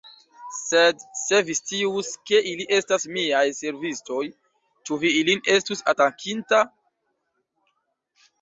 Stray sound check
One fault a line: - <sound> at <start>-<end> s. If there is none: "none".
none